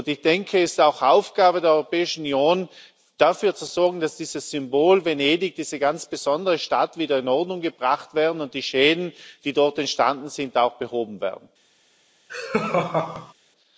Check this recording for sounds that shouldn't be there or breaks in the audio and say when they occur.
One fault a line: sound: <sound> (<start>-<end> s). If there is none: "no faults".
sound: laugh (12.3-13.3 s)